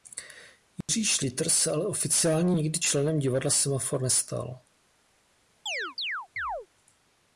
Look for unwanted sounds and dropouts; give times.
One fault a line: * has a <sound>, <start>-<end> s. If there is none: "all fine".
* has a dropout, 0.8-0.9 s
* has a chirp, 5.7-6.7 s